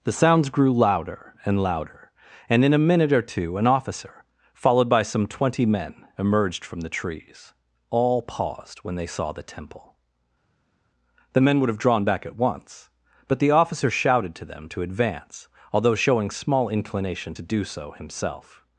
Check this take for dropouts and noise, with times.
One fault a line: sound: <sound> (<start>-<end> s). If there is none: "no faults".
no faults